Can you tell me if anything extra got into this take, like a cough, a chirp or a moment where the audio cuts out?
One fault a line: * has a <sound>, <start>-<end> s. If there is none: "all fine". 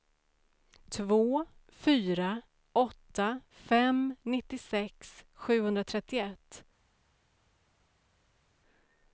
all fine